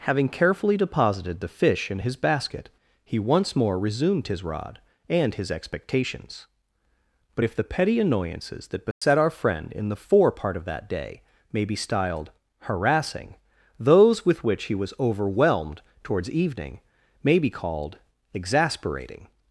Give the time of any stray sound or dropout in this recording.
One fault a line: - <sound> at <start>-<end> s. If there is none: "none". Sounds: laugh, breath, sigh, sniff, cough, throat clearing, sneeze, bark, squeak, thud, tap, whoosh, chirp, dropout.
- dropout at 8.9-9.0 s